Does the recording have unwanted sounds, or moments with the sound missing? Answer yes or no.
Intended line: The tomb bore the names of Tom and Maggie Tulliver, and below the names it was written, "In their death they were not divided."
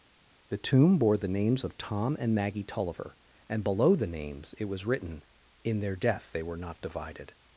no